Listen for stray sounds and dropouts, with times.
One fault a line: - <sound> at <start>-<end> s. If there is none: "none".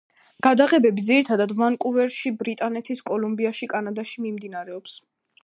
none